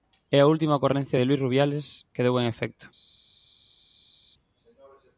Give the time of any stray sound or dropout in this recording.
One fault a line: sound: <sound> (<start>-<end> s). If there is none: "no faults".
no faults